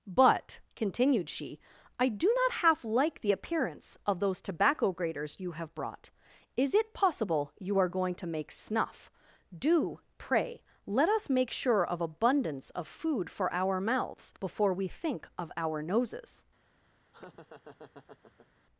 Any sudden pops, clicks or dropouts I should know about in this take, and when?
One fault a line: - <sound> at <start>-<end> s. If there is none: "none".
- laugh at 17.1-18.5 s